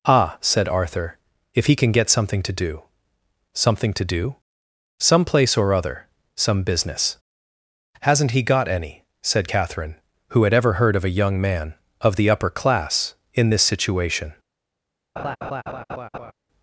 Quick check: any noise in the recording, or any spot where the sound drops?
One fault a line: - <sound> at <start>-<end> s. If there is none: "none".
- laugh at 15.2-16.3 s